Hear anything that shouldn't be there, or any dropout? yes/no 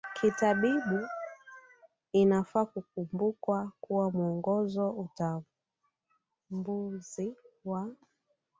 no